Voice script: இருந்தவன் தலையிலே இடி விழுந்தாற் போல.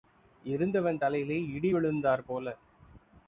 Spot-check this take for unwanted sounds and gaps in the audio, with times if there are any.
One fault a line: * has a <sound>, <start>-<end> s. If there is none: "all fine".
all fine